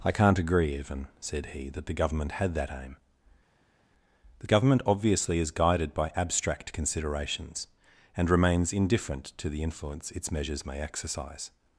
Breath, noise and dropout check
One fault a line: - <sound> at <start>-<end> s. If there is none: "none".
none